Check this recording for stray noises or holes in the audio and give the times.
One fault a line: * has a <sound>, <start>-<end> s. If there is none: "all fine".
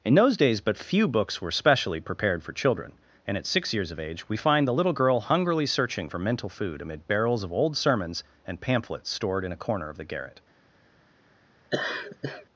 * has a laugh, 11.7-12.5 s